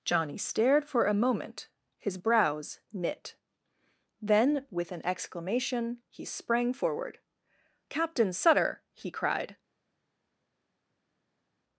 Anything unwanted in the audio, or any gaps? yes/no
no